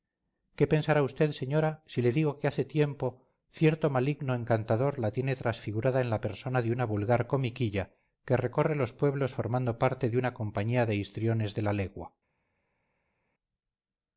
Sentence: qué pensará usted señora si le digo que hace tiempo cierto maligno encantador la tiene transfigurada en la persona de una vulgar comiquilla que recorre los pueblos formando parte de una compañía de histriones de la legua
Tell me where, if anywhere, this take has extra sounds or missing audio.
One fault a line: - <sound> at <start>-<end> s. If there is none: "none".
none